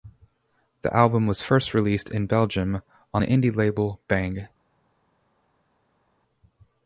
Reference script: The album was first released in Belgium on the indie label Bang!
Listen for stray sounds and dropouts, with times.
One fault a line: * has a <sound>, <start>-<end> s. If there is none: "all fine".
all fine